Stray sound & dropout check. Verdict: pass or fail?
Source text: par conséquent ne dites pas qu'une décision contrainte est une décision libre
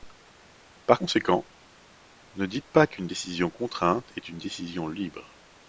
pass